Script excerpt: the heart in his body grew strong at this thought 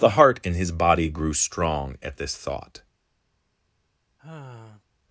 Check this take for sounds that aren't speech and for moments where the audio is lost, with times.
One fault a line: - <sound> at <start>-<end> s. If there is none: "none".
- sigh at 4.2-4.8 s